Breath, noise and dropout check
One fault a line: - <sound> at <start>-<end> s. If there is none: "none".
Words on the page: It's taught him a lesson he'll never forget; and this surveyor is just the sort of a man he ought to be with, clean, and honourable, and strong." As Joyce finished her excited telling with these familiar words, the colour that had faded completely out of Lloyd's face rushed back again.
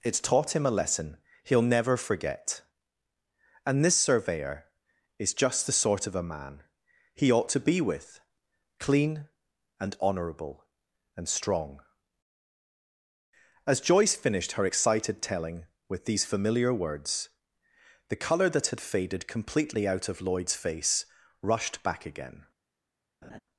- laugh at 23.2-23.4 s